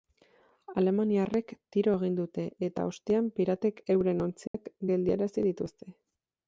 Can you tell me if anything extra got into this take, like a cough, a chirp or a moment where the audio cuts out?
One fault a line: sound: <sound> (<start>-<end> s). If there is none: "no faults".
sound: dropout (4.5-4.5 s)